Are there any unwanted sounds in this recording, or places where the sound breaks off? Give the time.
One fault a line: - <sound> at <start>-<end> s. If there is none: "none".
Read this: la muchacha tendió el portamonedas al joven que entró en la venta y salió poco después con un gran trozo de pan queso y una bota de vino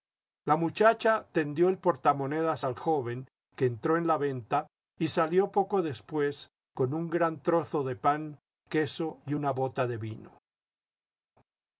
none